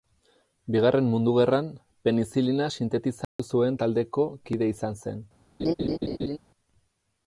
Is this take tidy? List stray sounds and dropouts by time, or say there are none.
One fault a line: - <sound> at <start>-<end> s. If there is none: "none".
- dropout at 3.2-3.4 s
- laugh at 5.6-6.4 s